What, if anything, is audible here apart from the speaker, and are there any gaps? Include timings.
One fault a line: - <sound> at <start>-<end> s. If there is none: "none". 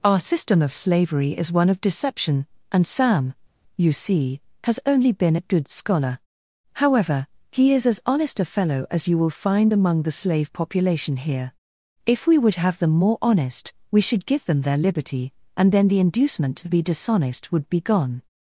none